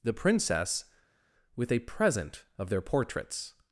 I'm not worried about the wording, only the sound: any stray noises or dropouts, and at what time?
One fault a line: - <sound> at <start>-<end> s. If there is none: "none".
none